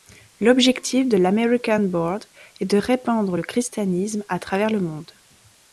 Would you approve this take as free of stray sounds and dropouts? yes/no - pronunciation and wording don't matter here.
yes